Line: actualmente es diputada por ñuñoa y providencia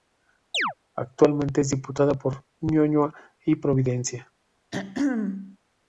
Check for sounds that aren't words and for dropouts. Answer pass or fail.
fail